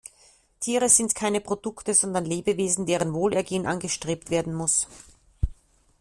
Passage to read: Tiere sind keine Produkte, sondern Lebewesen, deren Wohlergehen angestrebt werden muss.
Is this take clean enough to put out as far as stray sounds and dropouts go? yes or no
yes